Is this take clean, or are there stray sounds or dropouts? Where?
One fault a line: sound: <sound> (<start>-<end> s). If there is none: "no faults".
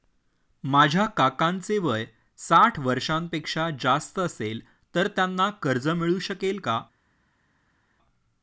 no faults